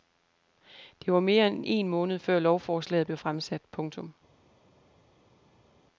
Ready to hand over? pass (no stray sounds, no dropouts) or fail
pass